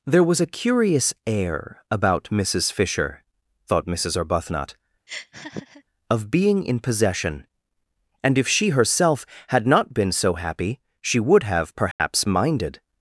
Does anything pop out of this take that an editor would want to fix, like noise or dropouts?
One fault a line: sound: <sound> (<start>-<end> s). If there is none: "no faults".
sound: laugh (5.1-5.8 s)
sound: dropout (11.9-12.0 s)